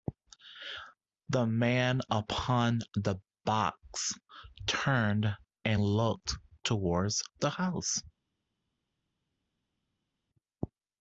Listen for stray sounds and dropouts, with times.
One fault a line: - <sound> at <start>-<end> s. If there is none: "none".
none